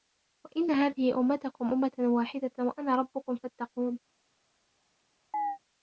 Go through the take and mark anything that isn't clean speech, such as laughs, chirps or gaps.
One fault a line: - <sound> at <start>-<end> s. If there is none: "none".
- chirp at 5.3-5.6 s